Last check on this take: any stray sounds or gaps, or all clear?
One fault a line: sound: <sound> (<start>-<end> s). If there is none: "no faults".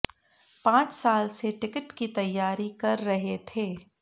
no faults